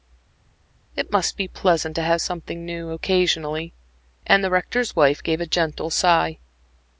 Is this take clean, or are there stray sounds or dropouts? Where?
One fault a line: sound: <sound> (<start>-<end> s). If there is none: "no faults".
no faults